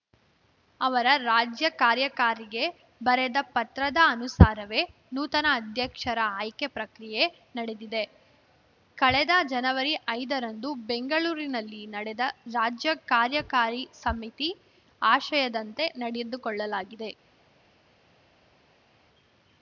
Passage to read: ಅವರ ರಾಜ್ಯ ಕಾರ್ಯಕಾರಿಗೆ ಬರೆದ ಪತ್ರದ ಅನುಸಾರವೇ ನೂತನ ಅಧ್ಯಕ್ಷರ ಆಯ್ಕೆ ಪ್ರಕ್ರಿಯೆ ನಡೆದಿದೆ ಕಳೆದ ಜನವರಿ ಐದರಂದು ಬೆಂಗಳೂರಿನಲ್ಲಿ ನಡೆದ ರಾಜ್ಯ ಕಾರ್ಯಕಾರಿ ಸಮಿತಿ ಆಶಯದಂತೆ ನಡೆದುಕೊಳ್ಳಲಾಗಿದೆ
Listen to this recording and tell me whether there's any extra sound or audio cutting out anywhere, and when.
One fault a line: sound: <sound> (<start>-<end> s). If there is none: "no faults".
no faults